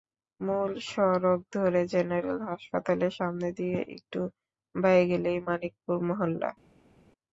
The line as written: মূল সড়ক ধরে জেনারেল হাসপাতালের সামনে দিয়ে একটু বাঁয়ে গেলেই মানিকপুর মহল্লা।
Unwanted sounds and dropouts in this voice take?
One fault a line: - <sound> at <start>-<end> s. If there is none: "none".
none